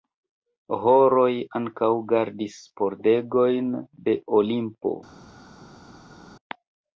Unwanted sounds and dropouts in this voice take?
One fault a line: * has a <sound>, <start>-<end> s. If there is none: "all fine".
all fine